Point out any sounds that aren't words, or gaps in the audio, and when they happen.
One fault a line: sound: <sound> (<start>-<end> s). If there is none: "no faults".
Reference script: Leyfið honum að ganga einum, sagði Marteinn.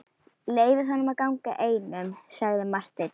no faults